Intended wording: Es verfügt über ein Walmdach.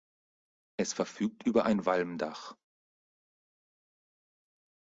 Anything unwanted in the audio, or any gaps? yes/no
no